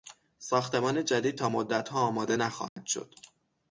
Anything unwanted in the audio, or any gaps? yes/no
yes